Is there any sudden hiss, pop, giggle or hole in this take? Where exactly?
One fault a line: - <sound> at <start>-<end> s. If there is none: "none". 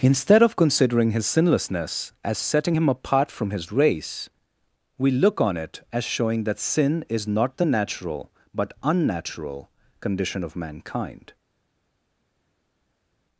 none